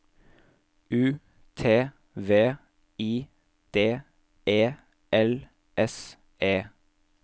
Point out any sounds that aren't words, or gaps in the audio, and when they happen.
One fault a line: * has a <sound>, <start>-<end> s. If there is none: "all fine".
all fine